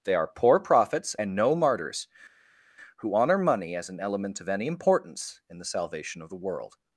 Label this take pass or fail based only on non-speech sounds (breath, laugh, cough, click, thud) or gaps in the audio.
pass